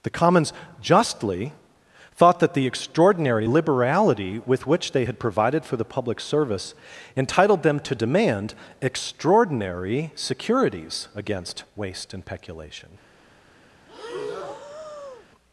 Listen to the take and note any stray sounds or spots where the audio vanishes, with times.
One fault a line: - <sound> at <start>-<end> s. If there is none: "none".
- breath at 13.9-15.3 s